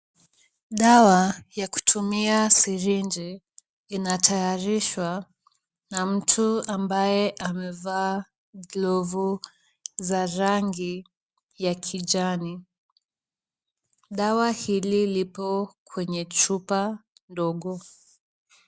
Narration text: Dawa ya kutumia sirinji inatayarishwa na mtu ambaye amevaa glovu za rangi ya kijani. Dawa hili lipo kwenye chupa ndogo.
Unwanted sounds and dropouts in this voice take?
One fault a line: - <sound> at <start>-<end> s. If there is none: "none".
none